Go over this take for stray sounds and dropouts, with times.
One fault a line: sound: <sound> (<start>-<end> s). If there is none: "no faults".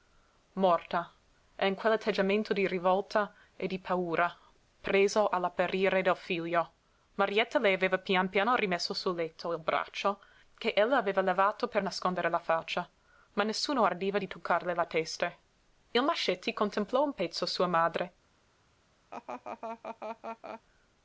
sound: laugh (19.1-20.6 s)